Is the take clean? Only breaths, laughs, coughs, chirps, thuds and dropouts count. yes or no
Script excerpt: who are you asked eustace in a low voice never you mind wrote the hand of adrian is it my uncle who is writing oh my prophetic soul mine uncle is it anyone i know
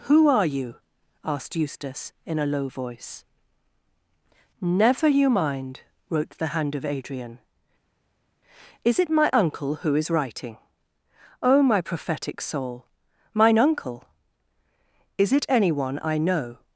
yes